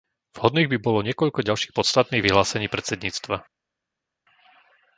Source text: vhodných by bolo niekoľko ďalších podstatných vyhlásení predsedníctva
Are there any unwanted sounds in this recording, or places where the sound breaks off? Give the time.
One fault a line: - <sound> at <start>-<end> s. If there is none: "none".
none